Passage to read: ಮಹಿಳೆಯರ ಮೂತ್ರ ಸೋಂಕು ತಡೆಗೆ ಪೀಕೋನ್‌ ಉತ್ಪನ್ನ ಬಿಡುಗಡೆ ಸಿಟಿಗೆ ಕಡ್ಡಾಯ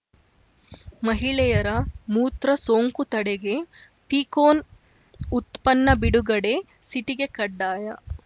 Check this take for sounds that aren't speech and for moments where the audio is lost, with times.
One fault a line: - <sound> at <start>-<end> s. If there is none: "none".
none